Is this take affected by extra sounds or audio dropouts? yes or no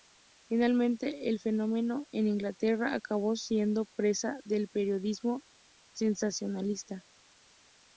no